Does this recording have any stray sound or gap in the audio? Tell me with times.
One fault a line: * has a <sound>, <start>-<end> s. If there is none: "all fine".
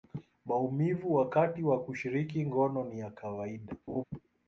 * has a laugh, 3.9-4.0 s